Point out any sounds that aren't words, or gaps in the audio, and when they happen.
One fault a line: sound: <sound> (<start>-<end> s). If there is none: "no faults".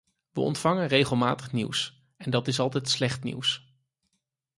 no faults